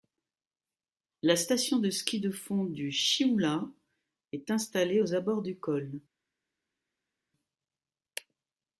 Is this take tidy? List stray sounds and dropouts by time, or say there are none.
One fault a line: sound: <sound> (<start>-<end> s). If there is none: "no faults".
no faults